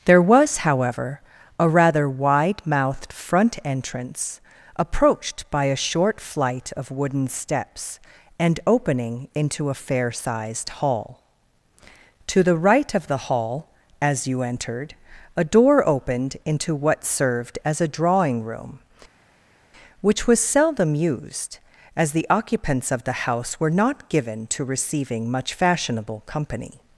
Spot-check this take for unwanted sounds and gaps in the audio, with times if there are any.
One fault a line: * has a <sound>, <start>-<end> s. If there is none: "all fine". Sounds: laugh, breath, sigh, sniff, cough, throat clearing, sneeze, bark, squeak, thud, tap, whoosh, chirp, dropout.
all fine